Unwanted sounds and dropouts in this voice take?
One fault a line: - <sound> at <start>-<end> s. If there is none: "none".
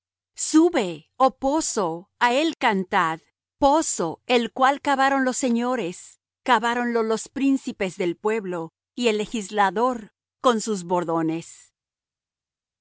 none